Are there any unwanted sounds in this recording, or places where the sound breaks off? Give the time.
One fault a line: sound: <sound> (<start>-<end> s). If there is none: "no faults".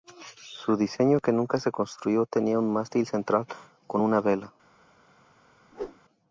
sound: whoosh (5.7-6.0 s)